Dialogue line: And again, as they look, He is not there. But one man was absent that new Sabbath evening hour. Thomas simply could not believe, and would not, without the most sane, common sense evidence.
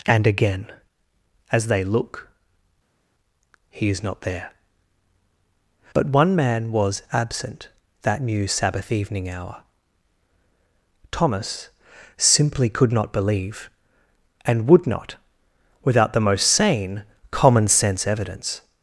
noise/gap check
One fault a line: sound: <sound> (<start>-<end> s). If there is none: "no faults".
no faults